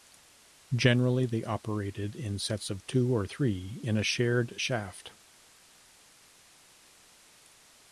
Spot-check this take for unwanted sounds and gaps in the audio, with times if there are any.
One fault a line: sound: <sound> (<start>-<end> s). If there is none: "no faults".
no faults